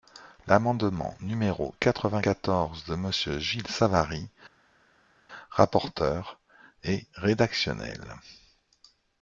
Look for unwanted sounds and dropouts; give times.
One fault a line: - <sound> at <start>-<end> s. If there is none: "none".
none